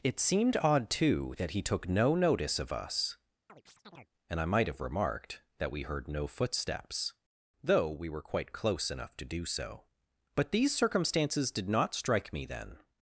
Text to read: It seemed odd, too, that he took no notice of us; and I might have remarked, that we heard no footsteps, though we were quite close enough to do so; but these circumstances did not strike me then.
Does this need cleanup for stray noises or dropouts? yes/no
yes